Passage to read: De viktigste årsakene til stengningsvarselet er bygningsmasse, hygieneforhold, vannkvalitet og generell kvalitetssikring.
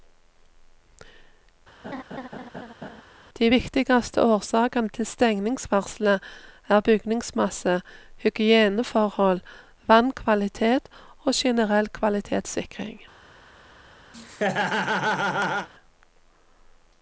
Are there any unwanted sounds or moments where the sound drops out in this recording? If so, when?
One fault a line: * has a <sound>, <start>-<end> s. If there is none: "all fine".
* has a laugh, 1.8-3.0 s
* has a laugh, 14.1-15.7 s